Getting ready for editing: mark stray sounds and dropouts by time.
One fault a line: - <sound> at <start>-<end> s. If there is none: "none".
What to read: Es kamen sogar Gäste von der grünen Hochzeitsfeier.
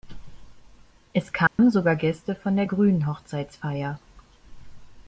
- dropout at 1.5-1.6 s